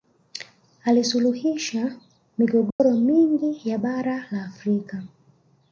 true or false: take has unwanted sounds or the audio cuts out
true